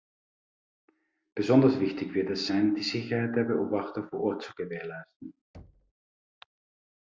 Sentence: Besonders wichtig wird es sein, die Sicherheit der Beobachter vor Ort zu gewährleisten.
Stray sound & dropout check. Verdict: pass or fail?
fail